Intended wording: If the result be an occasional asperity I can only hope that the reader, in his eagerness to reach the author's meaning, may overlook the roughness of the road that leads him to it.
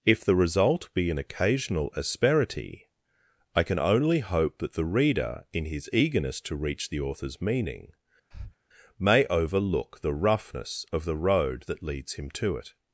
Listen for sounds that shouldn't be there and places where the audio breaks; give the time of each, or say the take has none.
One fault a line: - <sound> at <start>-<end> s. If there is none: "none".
- breath at 8.3-8.6 s